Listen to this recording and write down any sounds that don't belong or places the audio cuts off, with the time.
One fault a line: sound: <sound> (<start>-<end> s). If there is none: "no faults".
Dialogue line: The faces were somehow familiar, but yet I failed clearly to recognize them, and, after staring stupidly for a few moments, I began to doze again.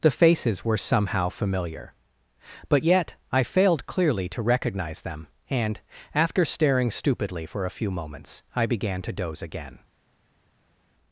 no faults